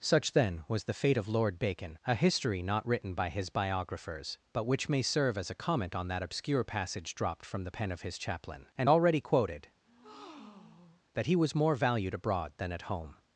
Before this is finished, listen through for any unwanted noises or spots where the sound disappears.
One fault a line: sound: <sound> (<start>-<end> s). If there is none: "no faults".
sound: breath (9.9-11.0 s)